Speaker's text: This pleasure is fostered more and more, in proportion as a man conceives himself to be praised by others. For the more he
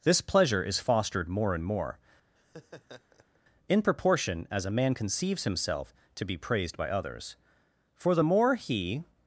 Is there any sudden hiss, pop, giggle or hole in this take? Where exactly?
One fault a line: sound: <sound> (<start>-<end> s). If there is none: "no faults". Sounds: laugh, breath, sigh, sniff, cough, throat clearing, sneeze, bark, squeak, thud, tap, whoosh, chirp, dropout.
sound: laugh (2.4-3.4 s)